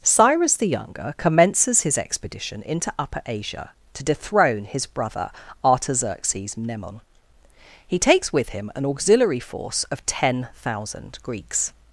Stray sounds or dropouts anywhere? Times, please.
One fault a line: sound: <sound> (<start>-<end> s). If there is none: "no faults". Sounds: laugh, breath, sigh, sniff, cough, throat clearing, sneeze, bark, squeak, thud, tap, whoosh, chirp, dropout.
no faults